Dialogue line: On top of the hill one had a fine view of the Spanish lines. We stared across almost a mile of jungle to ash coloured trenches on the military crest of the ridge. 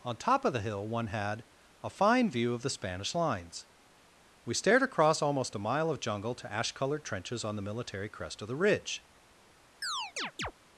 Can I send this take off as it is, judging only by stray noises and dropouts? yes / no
no